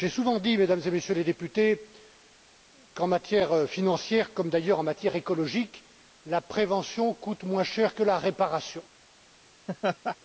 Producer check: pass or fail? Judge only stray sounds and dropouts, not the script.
fail